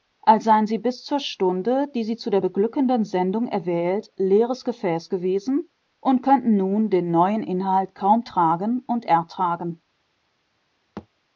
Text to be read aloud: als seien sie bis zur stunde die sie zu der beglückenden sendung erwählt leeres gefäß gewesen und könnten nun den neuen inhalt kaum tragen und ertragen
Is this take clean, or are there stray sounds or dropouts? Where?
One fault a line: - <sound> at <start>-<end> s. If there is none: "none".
- thud at 11.0-11.1 s